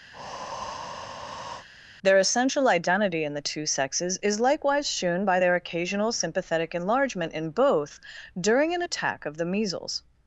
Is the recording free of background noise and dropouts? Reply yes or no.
no